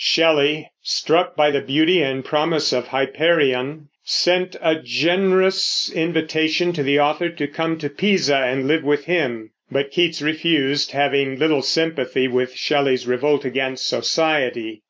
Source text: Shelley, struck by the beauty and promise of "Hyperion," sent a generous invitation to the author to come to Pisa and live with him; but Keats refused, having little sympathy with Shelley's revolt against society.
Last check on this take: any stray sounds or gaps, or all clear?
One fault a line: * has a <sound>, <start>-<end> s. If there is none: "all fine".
all fine